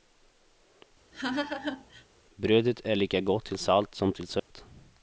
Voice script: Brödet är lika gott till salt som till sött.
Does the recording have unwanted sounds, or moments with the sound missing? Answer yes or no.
yes